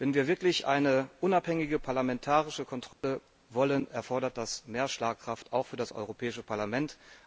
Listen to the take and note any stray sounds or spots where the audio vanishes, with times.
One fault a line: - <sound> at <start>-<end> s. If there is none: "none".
- dropout at 2.9-3.0 s